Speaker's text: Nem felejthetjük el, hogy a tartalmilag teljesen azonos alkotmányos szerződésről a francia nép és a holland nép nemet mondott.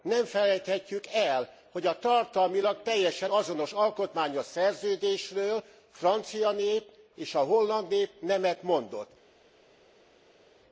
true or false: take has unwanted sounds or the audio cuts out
false